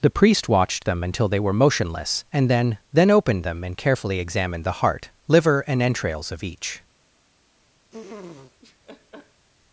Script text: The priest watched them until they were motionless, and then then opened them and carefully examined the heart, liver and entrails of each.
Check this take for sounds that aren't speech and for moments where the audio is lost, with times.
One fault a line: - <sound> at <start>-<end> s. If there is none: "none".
- laugh at 7.9-9.5 s